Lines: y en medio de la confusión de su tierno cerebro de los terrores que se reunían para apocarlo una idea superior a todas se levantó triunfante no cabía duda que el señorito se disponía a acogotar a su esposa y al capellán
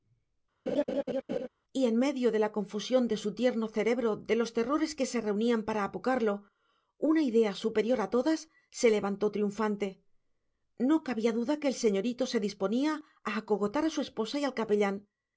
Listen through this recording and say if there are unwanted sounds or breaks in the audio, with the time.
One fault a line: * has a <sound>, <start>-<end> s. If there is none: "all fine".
* has a laugh, 0.7-1.5 s